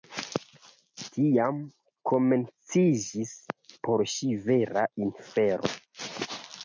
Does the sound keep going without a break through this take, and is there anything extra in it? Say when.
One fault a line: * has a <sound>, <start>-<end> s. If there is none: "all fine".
all fine